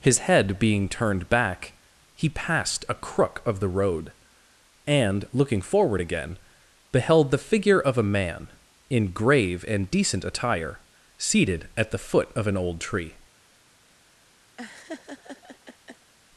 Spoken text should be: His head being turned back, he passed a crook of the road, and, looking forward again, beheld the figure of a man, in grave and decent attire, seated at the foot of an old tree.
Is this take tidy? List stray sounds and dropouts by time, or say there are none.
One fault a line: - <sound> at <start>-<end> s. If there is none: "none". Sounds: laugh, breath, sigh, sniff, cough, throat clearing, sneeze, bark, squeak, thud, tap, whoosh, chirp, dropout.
- laugh at 14.6-16.1 s